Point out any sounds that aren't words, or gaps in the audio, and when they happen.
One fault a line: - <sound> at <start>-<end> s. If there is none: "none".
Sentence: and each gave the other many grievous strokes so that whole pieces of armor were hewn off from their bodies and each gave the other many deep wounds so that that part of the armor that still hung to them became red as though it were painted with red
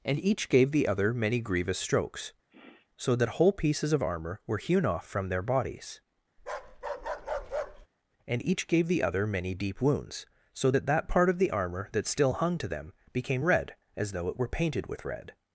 - sniff at 2.5-2.9 s
- bark at 6.4-7.9 s